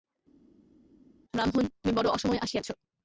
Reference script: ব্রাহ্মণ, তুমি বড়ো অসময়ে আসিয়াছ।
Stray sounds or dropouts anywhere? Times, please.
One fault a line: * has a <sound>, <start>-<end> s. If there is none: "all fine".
all fine